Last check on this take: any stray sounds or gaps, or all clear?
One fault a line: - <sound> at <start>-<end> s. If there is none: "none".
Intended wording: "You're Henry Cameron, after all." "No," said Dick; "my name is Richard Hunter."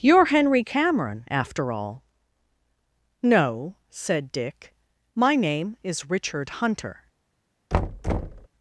- thud at 7.7-8.5 s